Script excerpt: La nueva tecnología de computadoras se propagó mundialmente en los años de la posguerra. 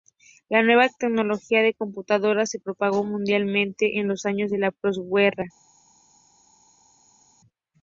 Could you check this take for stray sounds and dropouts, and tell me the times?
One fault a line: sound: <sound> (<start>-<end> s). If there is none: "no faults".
no faults